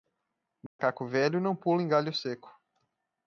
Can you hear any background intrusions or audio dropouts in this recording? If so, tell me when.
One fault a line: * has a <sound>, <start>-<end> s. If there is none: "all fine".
* has a dropout, 0.7-0.8 s